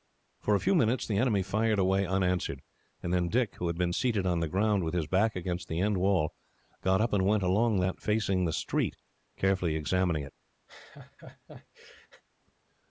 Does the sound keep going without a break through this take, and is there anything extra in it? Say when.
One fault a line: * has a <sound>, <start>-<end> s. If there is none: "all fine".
* has a laugh, 10.7-12.2 s